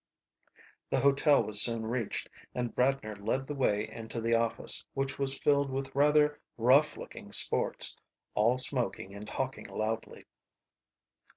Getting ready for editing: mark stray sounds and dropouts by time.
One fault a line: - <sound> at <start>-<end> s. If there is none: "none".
none